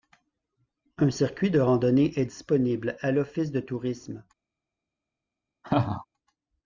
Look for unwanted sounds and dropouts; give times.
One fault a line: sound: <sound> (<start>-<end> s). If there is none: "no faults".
sound: laugh (5.6-6.1 s)